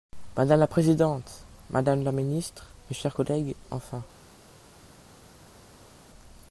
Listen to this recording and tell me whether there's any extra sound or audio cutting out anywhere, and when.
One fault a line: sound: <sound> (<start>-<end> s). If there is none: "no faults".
no faults